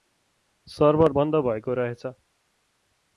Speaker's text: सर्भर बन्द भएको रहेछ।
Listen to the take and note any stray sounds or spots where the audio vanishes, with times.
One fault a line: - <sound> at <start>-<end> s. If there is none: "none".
none